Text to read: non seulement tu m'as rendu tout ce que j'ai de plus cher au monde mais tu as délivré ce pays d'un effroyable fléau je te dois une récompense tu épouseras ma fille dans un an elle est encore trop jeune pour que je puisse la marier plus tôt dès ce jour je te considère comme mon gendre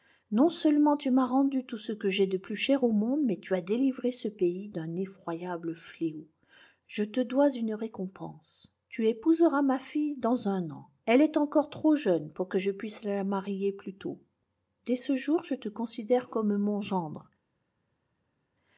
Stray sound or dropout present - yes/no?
no